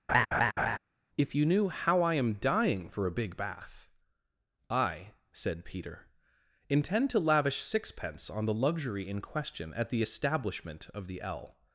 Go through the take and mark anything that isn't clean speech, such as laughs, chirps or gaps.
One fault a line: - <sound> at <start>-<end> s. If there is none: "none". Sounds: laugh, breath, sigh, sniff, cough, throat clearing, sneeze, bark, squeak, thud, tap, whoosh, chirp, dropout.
- laugh at 0.1-0.8 s